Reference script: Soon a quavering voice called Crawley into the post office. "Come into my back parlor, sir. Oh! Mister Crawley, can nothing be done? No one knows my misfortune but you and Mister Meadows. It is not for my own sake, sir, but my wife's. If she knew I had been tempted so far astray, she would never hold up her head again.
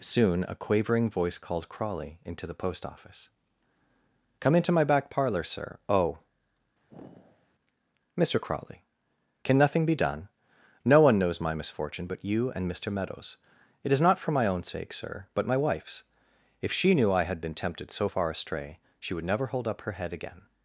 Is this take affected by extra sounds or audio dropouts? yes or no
yes